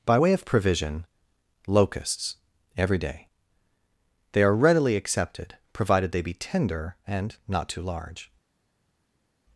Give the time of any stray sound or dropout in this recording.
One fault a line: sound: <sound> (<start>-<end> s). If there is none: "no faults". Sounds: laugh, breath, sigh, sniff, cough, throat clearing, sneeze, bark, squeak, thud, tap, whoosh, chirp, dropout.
no faults